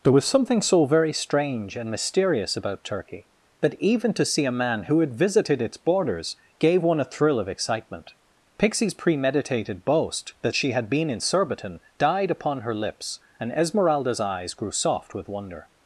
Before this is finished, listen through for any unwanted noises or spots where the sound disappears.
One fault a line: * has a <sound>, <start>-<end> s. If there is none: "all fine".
all fine